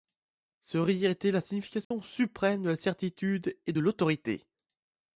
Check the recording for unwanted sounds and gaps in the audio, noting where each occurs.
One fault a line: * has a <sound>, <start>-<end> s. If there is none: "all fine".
* has a dropout, 1.8-1.9 s